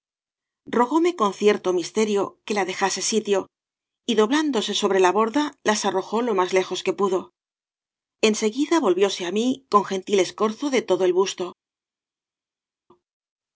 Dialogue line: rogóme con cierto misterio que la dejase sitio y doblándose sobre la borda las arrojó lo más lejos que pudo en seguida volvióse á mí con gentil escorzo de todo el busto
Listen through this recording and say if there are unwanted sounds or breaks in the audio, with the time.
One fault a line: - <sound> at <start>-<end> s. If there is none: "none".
none